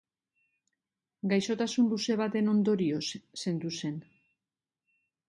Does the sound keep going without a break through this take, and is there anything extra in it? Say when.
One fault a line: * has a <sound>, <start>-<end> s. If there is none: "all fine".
all fine